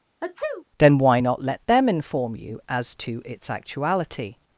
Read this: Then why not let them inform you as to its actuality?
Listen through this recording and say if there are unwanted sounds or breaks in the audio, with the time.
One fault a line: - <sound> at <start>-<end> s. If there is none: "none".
- sneeze at 0.2-0.6 s